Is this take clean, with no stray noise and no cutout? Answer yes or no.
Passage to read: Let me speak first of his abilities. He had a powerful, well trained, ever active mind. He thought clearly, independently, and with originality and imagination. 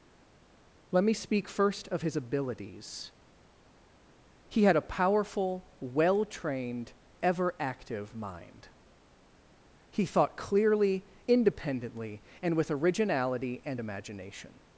yes